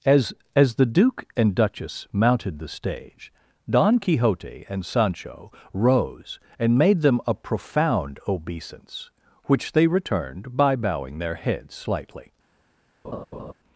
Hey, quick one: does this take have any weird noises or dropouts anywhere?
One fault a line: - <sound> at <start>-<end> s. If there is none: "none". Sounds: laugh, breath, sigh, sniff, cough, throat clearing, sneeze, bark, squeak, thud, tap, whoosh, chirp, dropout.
- laugh at 13.0-13.5 s